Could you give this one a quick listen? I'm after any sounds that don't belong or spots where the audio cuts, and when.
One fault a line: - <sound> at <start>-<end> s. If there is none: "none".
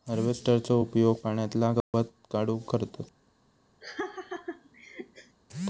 - dropout at 1.8-1.9 s
- laugh at 3.8-5.4 s